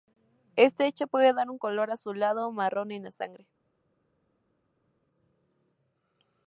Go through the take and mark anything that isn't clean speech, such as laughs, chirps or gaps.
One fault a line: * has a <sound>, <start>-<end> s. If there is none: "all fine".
all fine